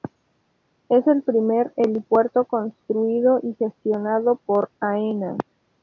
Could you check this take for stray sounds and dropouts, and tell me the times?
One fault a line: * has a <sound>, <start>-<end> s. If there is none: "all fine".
all fine